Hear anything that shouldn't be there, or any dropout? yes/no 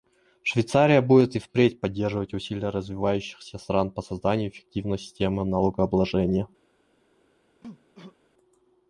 yes